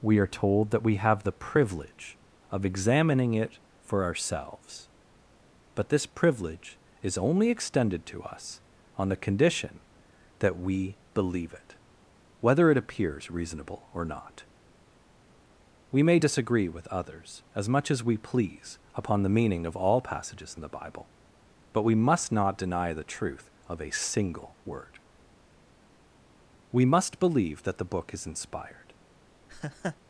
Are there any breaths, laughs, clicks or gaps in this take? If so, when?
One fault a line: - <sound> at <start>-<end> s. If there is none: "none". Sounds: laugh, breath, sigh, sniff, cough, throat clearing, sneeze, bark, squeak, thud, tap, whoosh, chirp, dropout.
- laugh at 29.5-30.0 s